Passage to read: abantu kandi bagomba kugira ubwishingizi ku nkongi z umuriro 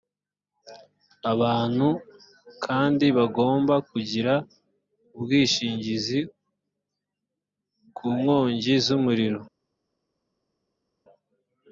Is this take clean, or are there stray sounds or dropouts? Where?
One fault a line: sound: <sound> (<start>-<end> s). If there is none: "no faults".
no faults